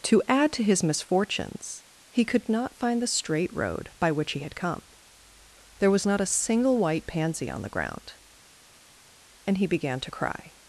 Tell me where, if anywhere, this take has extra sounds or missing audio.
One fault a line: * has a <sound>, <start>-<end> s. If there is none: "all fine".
all fine